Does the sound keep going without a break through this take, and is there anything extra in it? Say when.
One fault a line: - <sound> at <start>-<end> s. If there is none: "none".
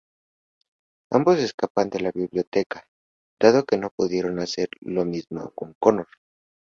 none